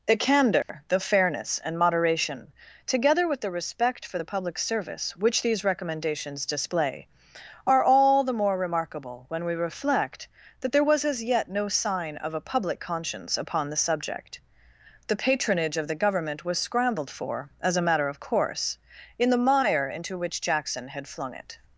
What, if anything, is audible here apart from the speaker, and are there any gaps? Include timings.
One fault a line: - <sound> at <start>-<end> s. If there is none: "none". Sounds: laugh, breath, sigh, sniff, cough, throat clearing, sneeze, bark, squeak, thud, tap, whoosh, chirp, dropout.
- dropout at 0.6-0.7 s